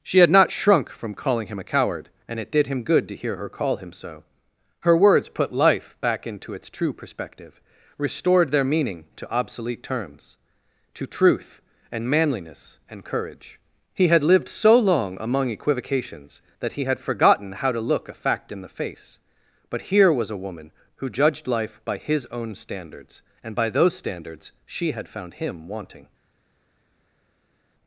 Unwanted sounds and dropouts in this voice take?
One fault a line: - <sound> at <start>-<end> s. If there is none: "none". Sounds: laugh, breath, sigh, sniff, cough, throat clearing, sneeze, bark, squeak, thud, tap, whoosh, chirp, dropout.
none